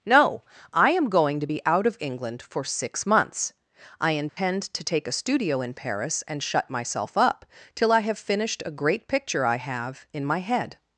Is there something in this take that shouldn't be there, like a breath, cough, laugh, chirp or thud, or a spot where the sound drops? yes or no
yes